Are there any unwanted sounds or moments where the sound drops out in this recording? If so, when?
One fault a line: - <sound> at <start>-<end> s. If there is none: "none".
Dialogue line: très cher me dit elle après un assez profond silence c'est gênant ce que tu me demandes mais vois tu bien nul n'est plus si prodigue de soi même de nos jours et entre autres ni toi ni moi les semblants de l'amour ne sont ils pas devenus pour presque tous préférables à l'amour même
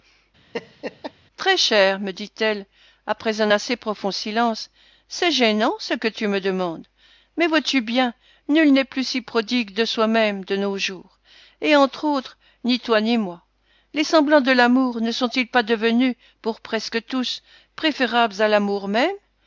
- laugh at 0.5-1.1 s